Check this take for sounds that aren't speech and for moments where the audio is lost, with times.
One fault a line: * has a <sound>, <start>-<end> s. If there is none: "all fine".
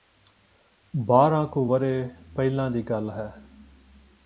all fine